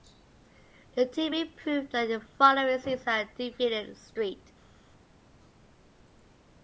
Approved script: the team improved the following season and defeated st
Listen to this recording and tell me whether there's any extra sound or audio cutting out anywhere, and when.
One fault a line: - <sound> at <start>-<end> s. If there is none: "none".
none